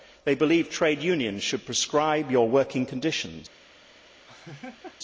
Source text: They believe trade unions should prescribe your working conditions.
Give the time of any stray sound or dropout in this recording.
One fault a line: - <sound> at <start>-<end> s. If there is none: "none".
- laugh at 4.3-5.0 s